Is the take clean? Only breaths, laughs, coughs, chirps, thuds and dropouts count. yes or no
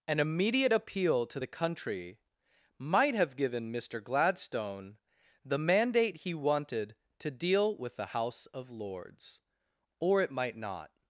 yes